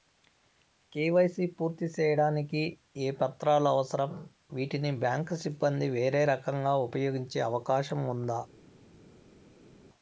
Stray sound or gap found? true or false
false